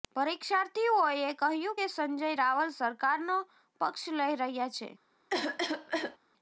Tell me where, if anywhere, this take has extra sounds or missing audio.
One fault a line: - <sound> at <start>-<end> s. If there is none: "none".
- cough at 5.3-6.2 s